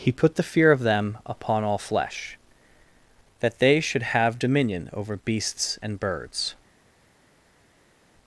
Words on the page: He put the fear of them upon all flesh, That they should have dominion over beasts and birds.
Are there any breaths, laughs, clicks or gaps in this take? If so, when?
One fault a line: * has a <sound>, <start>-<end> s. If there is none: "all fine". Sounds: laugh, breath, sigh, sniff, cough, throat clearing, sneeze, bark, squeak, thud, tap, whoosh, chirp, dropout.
all fine